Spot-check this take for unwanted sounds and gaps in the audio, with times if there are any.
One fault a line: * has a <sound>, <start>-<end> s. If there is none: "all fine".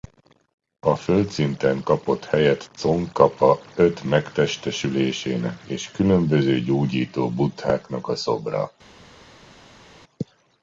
all fine